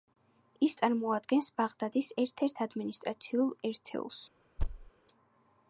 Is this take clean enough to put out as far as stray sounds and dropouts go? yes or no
no